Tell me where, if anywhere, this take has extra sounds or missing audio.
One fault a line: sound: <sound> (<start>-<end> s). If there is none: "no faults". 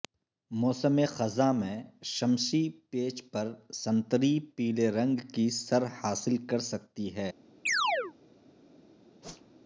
sound: chirp (7.7-8.1 s)
sound: whoosh (9.2-9.6 s)